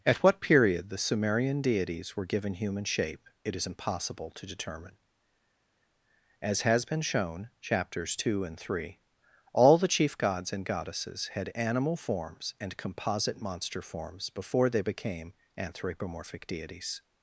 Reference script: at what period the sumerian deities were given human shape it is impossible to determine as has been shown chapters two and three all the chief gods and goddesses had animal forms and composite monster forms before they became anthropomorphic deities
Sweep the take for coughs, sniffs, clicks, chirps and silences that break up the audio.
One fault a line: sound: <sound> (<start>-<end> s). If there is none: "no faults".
no faults